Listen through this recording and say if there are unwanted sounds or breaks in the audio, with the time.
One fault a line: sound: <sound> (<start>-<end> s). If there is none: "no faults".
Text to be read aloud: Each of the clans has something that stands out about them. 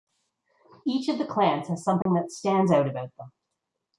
sound: dropout (2.0-2.1 s)